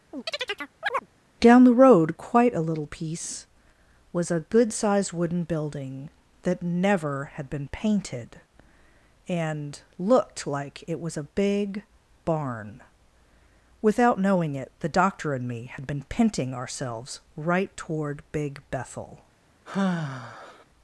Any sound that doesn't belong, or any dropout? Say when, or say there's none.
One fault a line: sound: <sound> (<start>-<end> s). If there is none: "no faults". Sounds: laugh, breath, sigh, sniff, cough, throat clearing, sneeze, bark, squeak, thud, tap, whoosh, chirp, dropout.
sound: chirp (0.1-1.1 s)
sound: sigh (19.6-20.6 s)